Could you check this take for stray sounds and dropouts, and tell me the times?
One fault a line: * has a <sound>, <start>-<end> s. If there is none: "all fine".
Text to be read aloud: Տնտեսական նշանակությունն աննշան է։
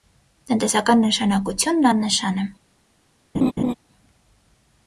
* has a laugh, 3.3-3.7 s